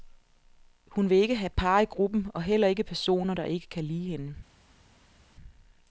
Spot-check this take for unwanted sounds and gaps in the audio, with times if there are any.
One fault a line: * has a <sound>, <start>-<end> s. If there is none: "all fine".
all fine